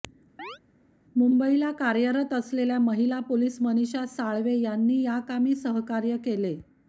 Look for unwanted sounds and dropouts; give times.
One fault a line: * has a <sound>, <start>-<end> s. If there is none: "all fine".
* has a chirp, 0.4-0.6 s